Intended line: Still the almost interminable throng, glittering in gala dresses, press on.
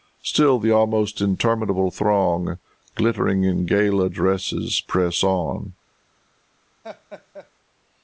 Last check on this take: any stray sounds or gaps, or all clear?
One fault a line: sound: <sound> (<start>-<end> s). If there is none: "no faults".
sound: laugh (6.8-7.5 s)